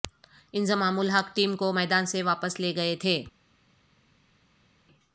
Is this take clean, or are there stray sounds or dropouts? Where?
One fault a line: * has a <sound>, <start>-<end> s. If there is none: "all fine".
all fine